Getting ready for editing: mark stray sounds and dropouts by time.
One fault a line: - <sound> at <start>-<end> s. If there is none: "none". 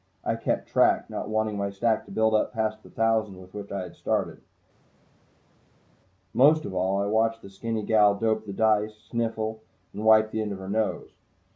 none